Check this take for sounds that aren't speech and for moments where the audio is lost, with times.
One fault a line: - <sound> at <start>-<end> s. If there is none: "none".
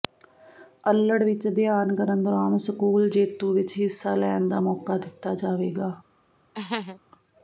- laugh at 6.5-7.0 s